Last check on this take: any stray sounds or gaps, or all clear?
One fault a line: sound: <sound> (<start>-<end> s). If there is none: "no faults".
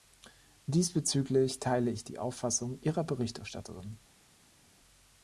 no faults